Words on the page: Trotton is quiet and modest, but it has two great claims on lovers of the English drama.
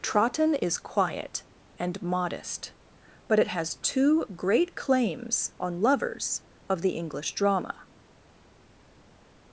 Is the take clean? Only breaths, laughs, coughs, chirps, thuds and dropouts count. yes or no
yes